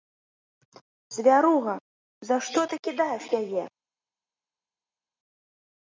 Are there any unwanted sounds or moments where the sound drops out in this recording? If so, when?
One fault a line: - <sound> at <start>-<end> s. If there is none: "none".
none